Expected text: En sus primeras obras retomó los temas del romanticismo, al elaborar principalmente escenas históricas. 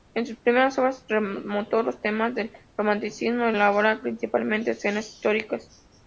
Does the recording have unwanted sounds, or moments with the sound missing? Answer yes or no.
no